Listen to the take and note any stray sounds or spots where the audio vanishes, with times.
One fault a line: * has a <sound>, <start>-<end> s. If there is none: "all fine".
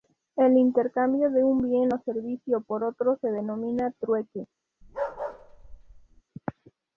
* has a bark, 4.8-6.2 s